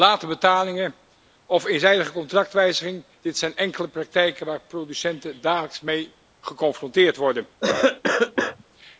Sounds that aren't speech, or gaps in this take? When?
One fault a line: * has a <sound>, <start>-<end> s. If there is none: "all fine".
* has a cough, 7.6-8.6 s